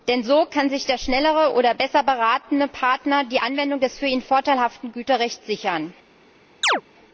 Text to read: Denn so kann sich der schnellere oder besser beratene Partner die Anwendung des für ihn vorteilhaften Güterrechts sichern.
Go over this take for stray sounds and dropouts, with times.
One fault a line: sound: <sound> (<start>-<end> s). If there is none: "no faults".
sound: chirp (6.6-6.8 s)